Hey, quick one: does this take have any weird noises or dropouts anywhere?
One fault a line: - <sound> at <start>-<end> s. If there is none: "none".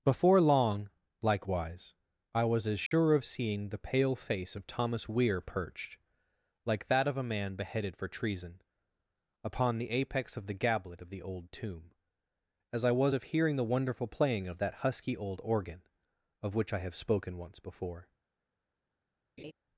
- dropout at 2.9-2.9 s
- laugh at 19.4-19.5 s